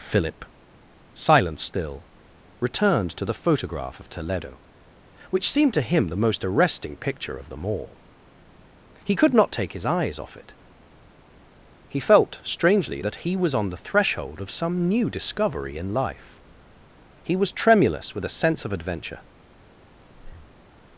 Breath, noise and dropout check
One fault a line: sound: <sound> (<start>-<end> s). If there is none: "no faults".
sound: breath (20.1-20.6 s)